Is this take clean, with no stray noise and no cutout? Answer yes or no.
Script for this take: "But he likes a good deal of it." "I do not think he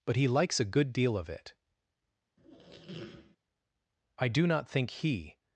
no